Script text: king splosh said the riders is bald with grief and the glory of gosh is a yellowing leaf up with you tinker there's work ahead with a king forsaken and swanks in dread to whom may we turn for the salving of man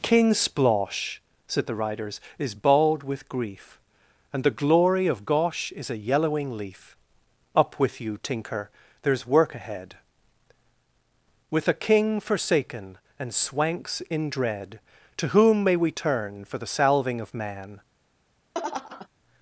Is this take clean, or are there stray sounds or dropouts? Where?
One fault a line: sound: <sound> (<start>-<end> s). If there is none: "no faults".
sound: laugh (18.5-19.1 s)